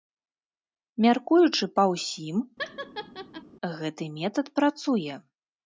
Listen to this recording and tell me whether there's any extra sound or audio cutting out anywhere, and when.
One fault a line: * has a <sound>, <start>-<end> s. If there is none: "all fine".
* has a laugh, 2.6-3.4 s